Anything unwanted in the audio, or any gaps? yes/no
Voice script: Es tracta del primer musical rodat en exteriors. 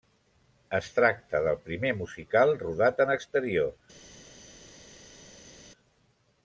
no